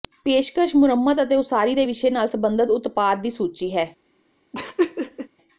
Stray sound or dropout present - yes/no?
yes